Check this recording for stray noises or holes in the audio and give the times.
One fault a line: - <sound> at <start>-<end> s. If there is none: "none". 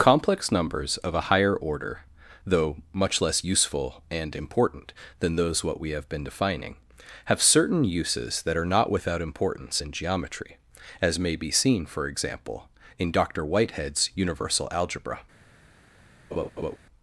- laugh at 16.3-16.8 s